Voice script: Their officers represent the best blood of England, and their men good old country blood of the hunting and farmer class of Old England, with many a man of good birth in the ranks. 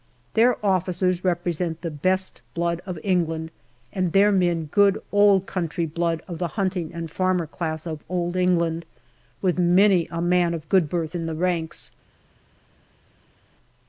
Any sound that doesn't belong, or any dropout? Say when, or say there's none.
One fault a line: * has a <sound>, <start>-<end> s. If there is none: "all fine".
all fine